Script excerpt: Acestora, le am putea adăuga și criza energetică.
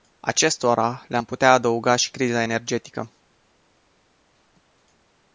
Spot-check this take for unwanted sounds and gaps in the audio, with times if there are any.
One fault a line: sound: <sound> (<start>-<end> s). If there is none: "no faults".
no faults